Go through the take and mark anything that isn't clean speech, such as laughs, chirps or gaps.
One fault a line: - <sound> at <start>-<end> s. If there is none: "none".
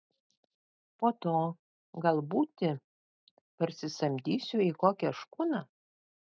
none